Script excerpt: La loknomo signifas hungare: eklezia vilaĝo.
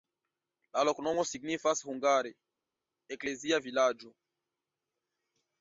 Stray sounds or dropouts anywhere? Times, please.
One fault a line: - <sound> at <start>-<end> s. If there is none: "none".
none